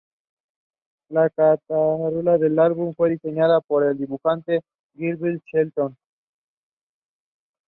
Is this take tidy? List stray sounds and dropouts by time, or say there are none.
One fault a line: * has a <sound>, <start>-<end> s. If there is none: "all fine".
all fine